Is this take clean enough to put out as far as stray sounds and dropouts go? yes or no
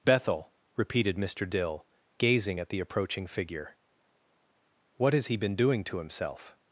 yes